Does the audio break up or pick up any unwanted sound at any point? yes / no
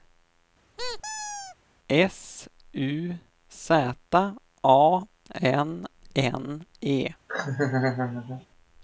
yes